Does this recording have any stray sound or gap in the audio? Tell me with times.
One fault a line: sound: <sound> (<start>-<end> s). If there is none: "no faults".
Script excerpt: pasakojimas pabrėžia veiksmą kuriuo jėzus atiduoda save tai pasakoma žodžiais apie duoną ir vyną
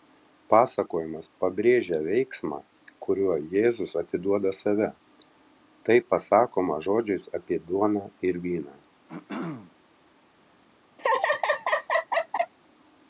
sound: throat clearing (9.1-9.7 s)
sound: laugh (11.0-12.5 s)